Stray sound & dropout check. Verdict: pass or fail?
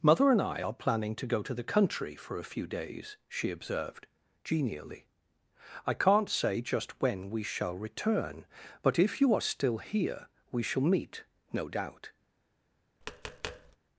fail